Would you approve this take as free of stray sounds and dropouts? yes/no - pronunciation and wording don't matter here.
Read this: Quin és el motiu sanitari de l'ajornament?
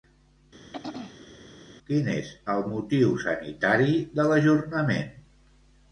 no